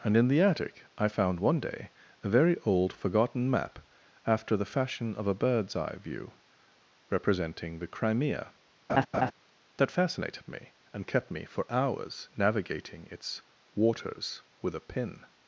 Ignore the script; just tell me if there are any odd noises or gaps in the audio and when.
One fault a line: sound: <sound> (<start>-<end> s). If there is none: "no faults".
sound: laugh (8.9-9.3 s)